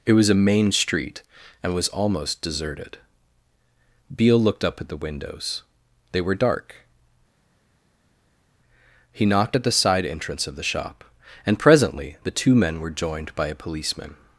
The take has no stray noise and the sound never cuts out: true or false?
true